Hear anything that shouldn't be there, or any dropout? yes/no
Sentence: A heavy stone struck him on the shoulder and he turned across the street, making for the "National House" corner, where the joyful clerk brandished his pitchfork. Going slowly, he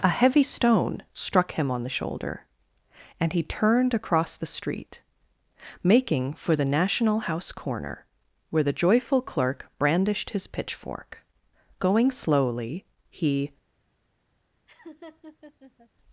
yes